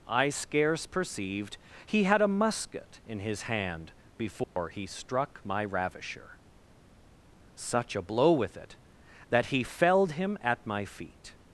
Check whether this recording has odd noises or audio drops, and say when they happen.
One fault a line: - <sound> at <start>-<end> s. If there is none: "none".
- dropout at 4.4-4.6 s